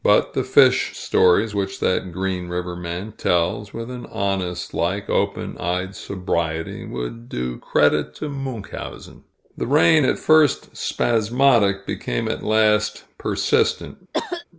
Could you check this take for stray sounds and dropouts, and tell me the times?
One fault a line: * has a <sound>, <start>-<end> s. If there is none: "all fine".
* has a cough, 14.1-14.4 s